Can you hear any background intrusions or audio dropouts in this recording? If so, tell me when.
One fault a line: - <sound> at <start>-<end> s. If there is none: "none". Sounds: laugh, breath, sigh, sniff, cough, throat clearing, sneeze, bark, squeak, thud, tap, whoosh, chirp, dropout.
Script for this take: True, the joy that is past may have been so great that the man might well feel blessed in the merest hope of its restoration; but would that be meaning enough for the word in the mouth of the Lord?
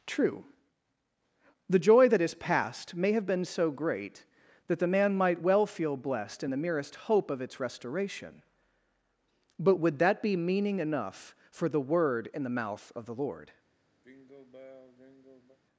- sigh at 14.0-15.6 s